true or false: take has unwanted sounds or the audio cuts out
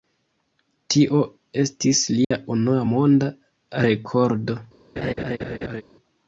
true